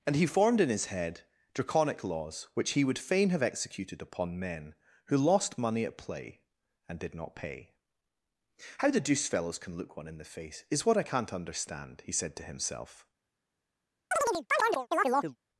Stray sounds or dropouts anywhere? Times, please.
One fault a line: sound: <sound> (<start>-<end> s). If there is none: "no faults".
sound: chirp (14.1-15.4 s)